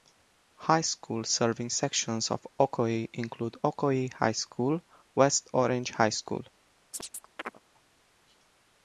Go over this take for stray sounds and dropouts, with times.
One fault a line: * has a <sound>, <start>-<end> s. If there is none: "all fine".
* has a chirp, 6.9-7.6 s